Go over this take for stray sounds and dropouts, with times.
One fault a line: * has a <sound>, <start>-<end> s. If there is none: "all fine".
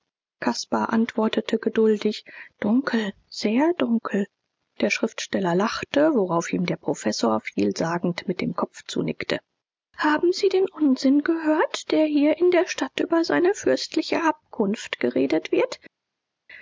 all fine